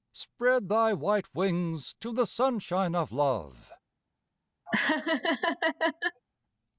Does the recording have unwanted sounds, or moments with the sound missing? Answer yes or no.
yes